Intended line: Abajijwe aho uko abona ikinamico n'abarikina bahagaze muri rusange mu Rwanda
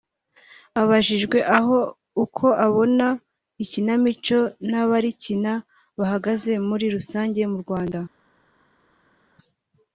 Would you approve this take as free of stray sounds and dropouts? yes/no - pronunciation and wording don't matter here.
yes